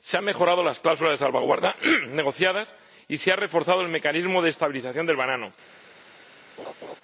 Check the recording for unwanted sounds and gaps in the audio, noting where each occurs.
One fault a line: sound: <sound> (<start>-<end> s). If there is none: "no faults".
sound: laugh (6.6-7.0 s)